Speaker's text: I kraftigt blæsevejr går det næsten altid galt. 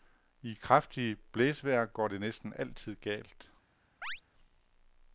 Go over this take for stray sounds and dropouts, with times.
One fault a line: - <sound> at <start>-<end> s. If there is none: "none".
- chirp at 4.0-4.2 s